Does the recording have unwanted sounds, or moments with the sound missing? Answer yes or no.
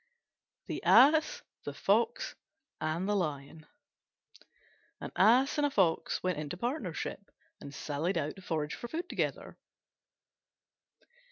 no